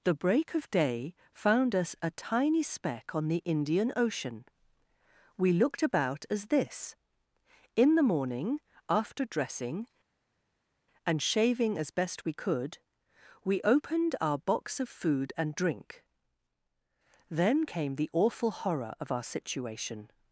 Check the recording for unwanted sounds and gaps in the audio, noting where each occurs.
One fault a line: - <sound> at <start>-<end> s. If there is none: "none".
none